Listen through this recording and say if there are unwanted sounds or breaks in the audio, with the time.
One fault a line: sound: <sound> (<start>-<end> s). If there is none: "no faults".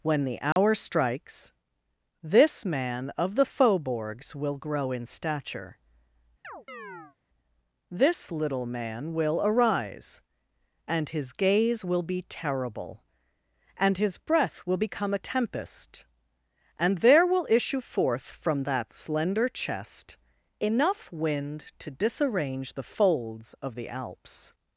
sound: dropout (0.5-0.6 s)
sound: chirp (6.4-7.2 s)